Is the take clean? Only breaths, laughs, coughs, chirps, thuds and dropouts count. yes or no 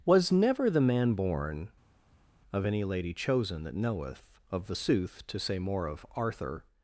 yes